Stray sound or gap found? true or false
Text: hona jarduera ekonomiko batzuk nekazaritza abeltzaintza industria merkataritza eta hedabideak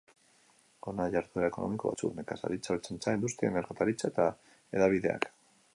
false